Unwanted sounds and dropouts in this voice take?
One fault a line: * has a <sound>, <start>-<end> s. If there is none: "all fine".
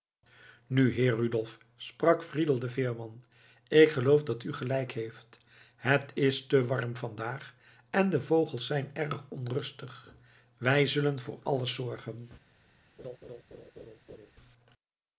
* has a laugh, 13.0-14.3 s